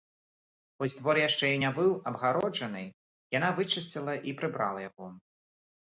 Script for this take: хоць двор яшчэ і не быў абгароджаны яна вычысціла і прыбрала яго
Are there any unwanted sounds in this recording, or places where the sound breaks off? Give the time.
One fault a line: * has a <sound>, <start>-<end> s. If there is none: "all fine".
all fine